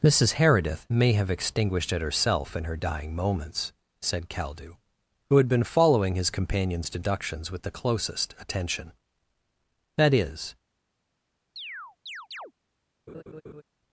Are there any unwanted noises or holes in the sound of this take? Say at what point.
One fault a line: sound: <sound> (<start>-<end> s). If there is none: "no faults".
sound: chirp (11.6-12.5 s)
sound: laugh (13.1-13.6 s)